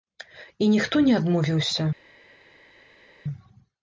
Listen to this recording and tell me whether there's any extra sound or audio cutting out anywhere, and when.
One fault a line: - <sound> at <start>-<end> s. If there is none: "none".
none